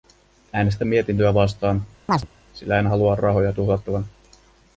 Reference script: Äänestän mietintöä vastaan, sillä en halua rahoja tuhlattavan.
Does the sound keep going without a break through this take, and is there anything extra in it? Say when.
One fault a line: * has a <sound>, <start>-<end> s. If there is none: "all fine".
* has a chirp, 2.1-2.3 s